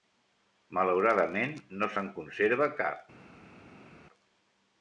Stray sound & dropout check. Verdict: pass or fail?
pass